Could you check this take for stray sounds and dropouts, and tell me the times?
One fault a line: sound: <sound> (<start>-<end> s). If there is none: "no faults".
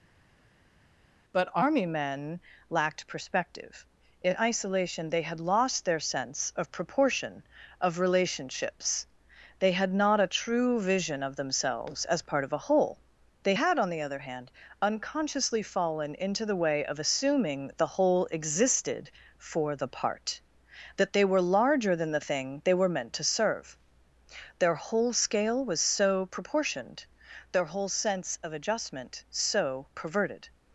no faults